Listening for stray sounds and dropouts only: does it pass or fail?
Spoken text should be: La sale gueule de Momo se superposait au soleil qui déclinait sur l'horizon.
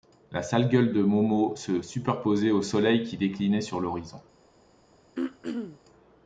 fail